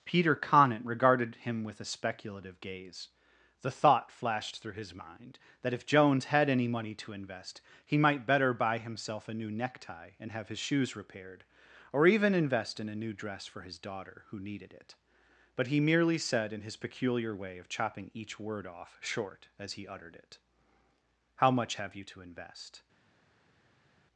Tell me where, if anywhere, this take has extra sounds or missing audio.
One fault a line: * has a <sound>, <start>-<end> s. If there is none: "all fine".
all fine